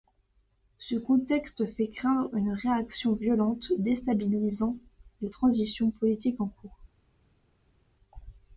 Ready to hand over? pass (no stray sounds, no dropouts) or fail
pass